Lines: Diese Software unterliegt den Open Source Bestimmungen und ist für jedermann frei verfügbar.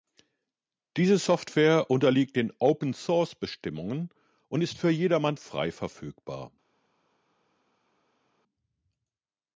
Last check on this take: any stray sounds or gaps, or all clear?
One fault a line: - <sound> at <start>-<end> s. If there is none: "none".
none